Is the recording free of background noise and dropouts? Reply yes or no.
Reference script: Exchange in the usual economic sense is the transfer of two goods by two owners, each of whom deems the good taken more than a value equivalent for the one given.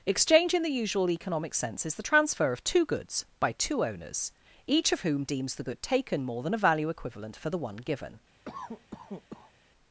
no